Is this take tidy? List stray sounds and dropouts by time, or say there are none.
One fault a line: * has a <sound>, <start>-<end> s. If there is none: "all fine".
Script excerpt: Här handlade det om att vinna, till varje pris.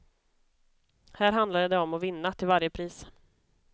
all fine